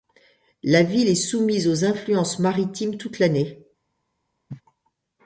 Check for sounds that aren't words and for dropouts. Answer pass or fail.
fail